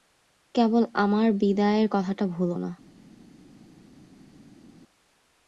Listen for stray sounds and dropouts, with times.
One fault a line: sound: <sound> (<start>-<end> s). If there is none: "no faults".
no faults